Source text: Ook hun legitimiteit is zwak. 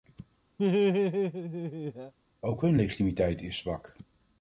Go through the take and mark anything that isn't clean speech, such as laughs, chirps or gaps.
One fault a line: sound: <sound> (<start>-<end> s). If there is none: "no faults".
sound: laugh (0.6-2.1 s)